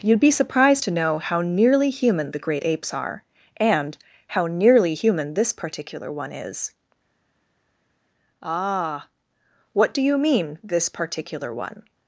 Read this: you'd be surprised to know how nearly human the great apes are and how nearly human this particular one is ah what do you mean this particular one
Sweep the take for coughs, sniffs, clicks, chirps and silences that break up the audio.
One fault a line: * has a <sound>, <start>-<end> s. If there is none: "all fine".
all fine